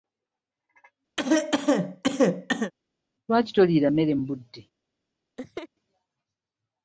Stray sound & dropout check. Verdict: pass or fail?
fail